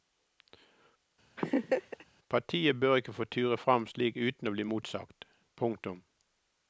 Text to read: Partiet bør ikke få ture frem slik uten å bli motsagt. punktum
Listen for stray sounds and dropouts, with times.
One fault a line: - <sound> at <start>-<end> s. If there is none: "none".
- laugh at 1.4-2.0 s